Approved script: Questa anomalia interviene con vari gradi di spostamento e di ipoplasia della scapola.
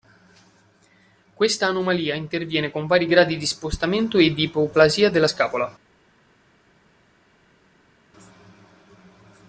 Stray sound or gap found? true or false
false